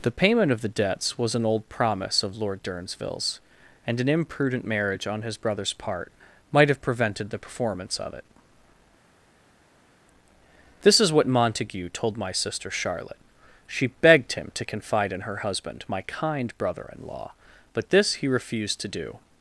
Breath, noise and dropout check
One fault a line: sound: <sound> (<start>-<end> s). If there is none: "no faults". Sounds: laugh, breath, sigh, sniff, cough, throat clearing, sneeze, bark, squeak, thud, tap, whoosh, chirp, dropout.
no faults